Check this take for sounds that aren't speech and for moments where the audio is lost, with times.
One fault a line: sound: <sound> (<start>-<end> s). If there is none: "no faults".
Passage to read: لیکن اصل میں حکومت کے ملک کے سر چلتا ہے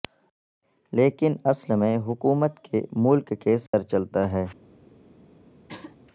sound: dropout (3.7-3.7 s)
sound: throat clearing (5.7-6.0 s)